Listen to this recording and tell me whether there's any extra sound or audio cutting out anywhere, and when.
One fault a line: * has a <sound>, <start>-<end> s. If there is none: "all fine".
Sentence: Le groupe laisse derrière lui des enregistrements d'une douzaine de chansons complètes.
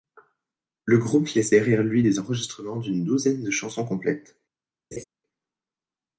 * has a laugh, 4.9-5.0 s